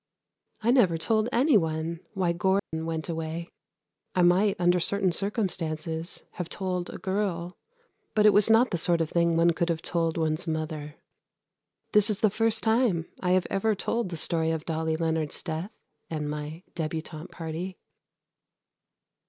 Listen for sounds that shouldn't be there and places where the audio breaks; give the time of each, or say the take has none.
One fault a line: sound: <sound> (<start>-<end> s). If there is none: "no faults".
sound: dropout (2.6-2.7 s)